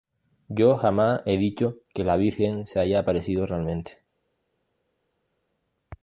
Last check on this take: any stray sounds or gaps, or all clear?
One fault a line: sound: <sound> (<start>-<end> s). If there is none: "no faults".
no faults